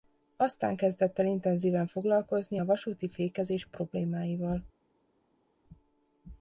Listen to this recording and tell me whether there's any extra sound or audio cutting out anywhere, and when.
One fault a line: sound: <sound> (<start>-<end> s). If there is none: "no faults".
no faults